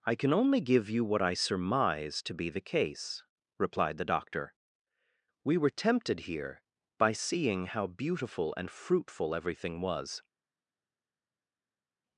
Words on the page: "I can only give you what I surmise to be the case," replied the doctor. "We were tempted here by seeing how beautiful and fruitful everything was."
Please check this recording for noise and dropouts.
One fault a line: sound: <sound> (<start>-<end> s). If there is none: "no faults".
no faults